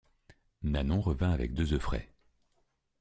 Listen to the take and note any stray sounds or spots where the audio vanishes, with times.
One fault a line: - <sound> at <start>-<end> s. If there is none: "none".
none